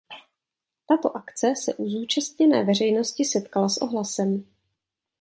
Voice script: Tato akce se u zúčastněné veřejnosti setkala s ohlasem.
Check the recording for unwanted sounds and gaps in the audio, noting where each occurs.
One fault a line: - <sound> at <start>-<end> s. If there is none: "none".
none